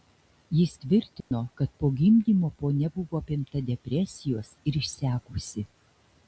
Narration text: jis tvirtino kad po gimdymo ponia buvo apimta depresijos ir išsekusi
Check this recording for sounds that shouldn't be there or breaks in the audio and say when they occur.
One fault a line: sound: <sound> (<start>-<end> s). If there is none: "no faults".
sound: dropout (1.2-1.3 s)